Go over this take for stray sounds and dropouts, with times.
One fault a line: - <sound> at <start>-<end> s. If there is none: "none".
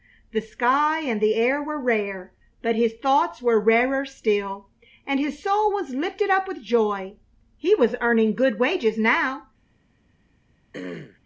- throat clearing at 10.7-11.2 s